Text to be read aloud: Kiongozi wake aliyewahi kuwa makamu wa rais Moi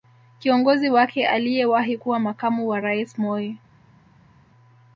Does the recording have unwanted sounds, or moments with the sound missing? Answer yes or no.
no